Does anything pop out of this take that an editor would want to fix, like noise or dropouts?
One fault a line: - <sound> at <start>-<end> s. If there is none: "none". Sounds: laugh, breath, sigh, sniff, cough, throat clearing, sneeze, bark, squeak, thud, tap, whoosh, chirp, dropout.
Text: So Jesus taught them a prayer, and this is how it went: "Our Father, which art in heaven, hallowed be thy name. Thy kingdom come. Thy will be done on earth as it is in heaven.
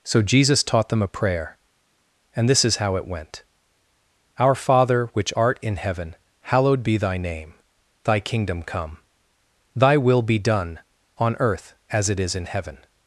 none